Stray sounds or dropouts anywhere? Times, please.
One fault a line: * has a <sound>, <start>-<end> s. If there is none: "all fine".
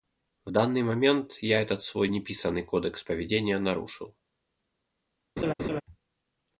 * has a laugh, 5.4-5.8 s